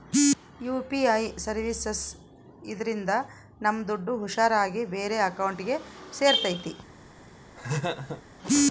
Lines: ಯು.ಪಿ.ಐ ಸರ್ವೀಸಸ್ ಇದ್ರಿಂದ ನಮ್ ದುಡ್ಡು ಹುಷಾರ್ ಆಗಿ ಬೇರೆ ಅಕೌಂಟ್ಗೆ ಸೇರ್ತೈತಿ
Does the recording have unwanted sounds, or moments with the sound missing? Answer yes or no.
yes